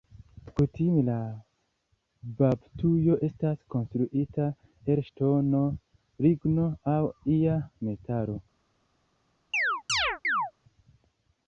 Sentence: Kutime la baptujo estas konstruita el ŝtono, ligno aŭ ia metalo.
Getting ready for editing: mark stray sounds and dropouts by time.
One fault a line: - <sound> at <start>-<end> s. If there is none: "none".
- chirp at 9.5-10.5 s